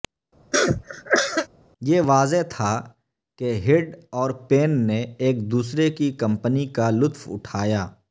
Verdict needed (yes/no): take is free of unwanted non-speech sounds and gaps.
no